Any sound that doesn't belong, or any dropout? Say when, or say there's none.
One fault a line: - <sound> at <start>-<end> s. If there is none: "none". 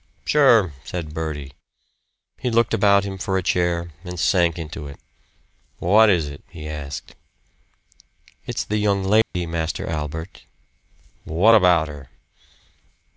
- dropout at 9.2-9.3 s